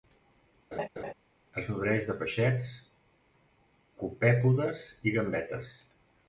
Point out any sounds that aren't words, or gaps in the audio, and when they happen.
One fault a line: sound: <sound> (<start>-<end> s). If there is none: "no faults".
sound: laugh (0.7-1.1 s)